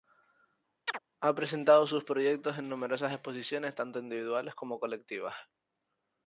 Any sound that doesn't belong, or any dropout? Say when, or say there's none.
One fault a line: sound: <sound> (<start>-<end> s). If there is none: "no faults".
sound: chirp (0.9-1.0 s)